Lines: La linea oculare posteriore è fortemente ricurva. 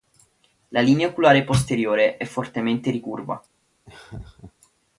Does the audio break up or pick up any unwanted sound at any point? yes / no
yes